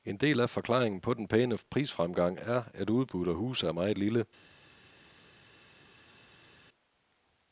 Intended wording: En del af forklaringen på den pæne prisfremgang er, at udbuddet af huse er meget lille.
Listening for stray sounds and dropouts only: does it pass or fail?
pass